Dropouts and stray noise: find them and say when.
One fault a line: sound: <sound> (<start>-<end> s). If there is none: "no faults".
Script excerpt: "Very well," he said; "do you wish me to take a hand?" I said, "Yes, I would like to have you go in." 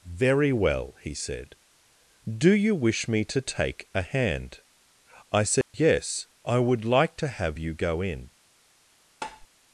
sound: dropout (5.6-5.7 s)
sound: tap (9.2-9.5 s)